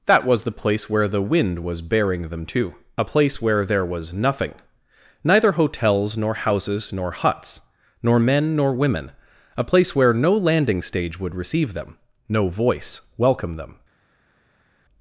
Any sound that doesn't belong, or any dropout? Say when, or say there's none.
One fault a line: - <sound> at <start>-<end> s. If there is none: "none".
none